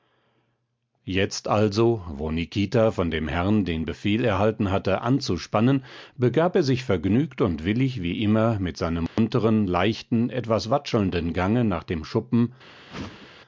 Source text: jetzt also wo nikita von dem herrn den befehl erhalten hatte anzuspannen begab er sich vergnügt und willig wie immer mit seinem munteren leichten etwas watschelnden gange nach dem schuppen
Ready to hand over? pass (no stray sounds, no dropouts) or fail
fail